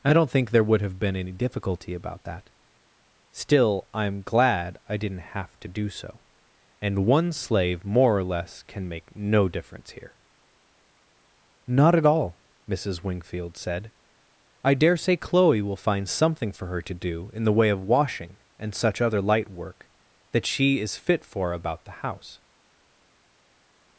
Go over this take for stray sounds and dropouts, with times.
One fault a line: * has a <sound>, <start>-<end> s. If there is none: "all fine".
all fine